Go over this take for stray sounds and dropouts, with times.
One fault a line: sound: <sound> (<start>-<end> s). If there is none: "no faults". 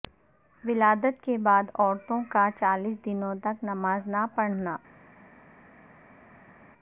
no faults